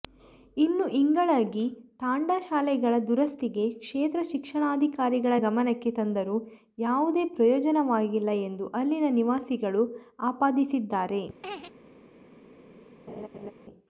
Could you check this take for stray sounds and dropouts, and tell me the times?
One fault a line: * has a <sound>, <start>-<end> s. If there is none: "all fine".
* has a laugh, 11.4-11.7 s
* has a laugh, 13.1-13.5 s